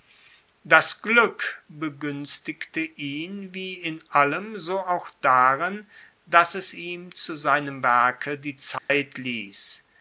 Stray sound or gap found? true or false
true